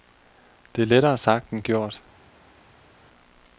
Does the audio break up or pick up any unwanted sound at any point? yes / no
no